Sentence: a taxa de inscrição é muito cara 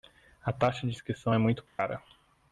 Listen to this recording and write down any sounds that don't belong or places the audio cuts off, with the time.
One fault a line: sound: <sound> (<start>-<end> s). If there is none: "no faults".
sound: dropout (1.7-1.8 s)